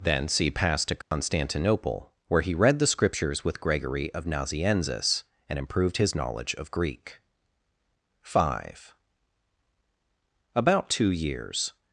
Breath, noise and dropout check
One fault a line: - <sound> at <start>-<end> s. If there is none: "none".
- dropout at 1.0-1.1 s